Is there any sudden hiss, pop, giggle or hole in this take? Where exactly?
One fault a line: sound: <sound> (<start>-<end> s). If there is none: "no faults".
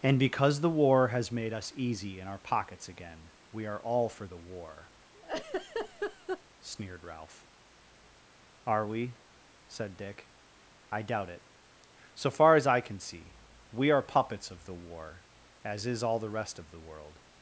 sound: laugh (5.1-6.4 s)